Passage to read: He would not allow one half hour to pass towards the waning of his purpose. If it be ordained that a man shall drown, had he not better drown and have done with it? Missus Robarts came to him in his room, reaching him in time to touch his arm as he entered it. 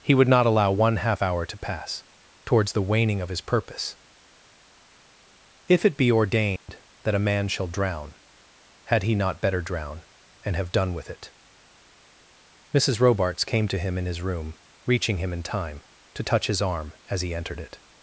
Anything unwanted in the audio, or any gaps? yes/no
yes